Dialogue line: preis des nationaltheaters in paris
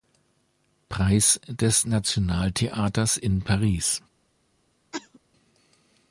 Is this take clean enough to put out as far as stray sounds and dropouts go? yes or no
no